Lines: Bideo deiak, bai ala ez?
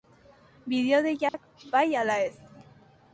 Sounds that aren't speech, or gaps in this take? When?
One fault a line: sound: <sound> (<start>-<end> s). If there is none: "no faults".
sound: dropout (1.3-1.3 s)